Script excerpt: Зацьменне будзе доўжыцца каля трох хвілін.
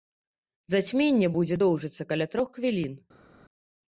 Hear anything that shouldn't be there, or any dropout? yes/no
no